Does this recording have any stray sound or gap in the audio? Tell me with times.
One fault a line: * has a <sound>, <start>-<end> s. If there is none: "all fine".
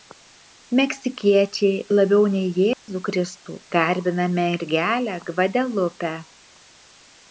* has a dropout, 2.7-2.9 s